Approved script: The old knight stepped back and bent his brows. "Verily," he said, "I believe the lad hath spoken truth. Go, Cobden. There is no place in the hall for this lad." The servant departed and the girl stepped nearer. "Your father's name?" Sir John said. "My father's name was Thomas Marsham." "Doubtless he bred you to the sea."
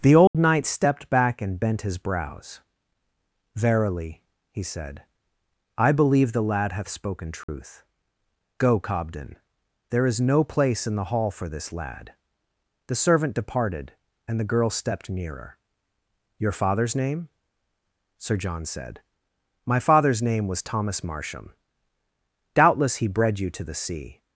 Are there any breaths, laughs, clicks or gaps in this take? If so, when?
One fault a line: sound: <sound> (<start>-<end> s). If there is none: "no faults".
sound: dropout (0.3-0.3 s)
sound: dropout (7.4-7.5 s)